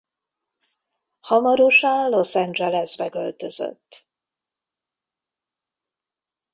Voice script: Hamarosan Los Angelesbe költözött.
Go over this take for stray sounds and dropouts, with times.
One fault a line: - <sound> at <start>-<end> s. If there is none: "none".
none